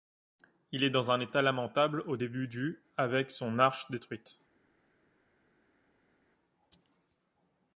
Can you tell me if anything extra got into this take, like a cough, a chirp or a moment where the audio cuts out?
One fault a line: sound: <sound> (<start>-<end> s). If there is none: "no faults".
no faults